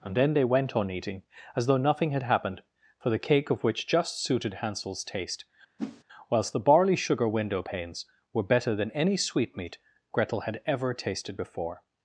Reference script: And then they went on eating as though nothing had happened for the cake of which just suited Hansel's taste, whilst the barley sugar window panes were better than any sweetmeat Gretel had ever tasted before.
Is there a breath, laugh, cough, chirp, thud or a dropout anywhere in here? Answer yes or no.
yes